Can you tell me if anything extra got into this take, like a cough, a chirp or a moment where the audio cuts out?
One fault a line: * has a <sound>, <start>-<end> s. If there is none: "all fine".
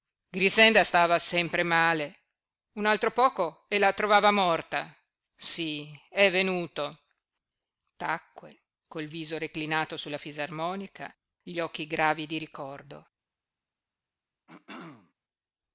* has a throat clearing, 14.5-15.1 s